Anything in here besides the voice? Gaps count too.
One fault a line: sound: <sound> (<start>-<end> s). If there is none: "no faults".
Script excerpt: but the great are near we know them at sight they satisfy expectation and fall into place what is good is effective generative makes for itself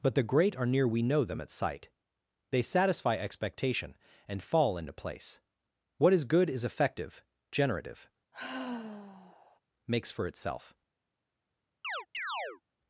sound: sigh (8.3-9.6 s)
sound: chirp (11.8-12.6 s)